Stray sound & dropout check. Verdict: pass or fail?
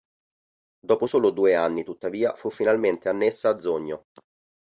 pass